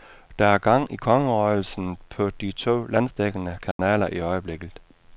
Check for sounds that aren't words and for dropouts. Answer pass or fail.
fail